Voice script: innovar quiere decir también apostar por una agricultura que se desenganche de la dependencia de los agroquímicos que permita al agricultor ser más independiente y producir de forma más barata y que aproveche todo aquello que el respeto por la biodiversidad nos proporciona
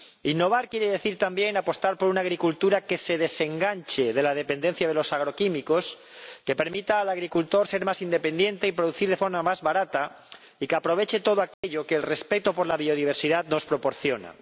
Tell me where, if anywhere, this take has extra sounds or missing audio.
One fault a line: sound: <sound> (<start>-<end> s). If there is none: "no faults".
sound: dropout (11.5-11.6 s)